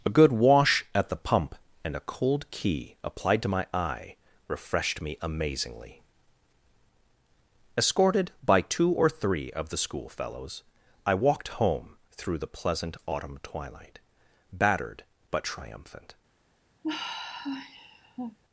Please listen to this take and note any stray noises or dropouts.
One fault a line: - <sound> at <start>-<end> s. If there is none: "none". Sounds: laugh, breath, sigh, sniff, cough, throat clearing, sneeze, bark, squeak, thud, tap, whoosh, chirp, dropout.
- sigh at 16.8-18.4 s